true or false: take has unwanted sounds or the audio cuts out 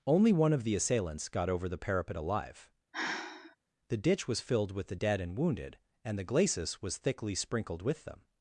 true